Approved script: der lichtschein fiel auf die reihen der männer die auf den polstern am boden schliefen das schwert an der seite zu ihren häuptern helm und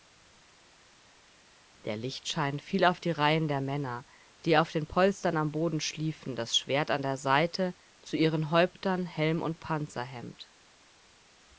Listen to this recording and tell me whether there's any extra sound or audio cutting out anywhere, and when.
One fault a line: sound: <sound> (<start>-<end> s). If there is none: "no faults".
no faults